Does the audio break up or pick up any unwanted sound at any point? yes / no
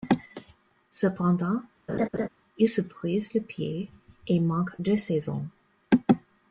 yes